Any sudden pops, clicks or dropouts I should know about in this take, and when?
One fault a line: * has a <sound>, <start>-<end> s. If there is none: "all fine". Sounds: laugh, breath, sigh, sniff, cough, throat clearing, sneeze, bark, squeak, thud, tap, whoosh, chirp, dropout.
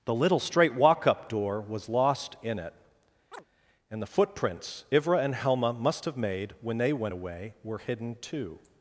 * has a chirp, 3.3-3.4 s